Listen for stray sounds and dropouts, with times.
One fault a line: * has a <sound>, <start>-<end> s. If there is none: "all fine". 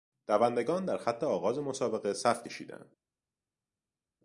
all fine